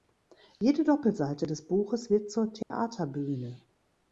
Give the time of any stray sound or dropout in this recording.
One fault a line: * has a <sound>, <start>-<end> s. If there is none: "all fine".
* has a dropout, 2.6-2.7 s